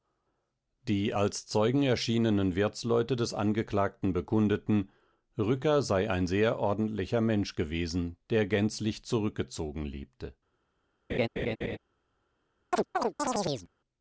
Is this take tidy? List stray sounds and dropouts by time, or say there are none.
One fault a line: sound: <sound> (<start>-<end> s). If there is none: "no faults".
sound: laugh (11.1-11.8 s)
sound: chirp (12.7-13.7 s)